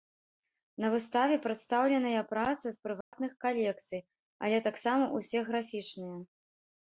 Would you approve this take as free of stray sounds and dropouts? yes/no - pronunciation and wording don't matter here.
no